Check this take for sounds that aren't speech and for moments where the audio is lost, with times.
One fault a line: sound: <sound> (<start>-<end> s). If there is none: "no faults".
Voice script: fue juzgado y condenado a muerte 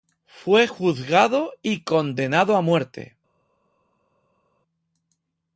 no faults